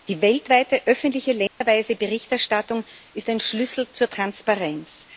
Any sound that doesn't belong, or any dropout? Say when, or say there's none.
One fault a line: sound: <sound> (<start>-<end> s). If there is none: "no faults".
sound: dropout (1.5-1.6 s)